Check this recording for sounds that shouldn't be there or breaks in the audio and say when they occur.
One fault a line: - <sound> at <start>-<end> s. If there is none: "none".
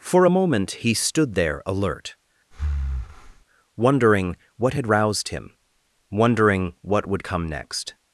- breath at 2.5-3.4 s